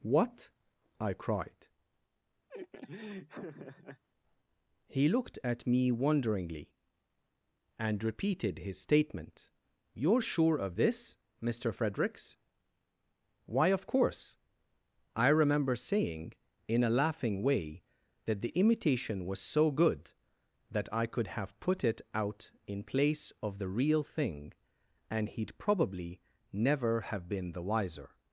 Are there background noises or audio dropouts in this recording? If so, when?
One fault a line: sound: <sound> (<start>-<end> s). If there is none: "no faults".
sound: laugh (2.5-4.0 s)